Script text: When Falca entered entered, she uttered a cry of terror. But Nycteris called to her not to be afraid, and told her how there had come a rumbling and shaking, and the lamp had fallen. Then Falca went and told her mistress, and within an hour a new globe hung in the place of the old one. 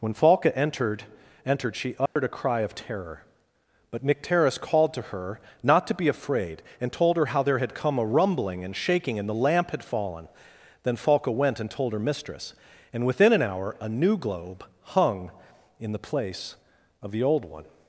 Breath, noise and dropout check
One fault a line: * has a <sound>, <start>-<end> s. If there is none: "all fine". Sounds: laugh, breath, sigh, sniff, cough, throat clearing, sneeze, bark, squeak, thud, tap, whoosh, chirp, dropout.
* has a dropout, 2.1-2.2 s